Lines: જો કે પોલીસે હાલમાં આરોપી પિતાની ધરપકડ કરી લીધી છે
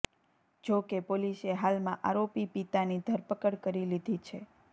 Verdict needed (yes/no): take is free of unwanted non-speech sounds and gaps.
yes